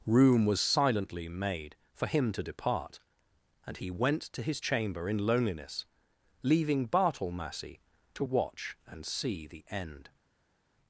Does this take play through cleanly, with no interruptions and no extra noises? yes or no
yes